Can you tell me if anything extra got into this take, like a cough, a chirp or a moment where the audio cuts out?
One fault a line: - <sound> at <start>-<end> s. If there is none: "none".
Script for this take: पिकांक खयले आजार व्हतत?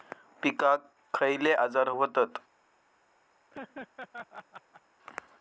- laugh at 3.5-4.8 s